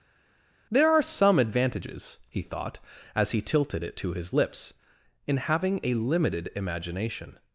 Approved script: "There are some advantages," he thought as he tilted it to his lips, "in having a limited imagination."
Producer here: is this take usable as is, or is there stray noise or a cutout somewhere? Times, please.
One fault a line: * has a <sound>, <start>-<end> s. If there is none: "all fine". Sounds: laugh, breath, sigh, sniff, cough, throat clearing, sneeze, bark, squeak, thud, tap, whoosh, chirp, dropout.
all fine